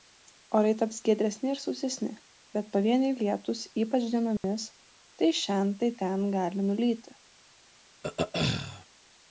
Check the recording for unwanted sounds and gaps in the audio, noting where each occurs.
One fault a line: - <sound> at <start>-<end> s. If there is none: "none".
- dropout at 4.4-4.4 s
- throat clearing at 8.0-8.9 s